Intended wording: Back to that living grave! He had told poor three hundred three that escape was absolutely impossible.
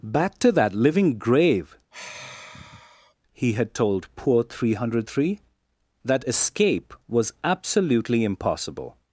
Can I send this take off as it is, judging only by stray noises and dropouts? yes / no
no